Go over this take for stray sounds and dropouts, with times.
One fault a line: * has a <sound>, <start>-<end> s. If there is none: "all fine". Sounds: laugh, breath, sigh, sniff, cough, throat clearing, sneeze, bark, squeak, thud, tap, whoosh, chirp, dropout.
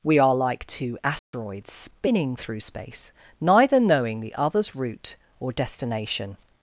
* has a dropout, 1.2-1.3 s